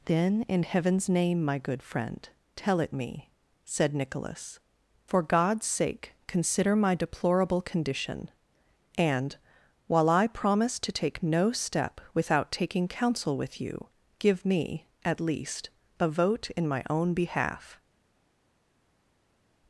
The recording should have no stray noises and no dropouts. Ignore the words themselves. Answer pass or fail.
pass